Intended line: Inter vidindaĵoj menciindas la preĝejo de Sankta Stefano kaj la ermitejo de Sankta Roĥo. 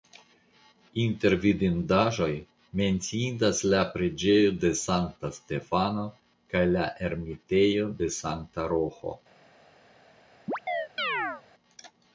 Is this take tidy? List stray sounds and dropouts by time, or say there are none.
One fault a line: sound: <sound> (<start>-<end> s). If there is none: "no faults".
sound: chirp (10.5-11.4 s)